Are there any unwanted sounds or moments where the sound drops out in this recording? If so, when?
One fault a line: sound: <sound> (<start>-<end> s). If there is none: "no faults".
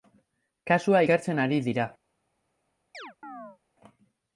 sound: chirp (2.9-3.6 s)